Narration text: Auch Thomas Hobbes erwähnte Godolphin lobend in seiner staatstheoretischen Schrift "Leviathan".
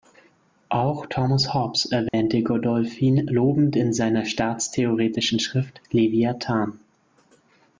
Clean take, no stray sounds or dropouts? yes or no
no